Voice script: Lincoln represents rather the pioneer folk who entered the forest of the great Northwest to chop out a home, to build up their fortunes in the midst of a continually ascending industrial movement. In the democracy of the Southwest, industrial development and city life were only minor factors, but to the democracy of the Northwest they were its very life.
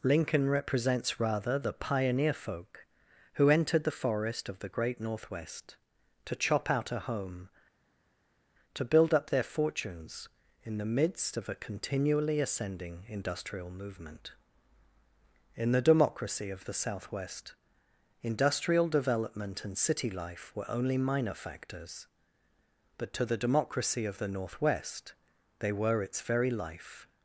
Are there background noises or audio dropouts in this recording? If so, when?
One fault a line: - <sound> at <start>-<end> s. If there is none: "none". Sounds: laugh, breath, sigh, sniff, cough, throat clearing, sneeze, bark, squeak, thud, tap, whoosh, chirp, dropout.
none